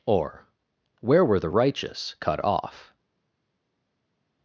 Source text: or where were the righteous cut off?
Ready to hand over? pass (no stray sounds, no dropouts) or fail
pass